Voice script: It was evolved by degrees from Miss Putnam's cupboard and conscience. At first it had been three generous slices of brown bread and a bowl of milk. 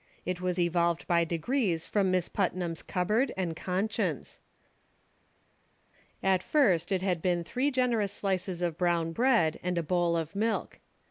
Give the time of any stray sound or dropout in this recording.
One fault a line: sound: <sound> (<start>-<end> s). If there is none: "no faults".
no faults